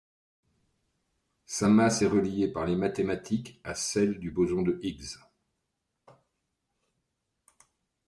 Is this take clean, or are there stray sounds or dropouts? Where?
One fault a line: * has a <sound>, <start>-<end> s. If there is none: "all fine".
all fine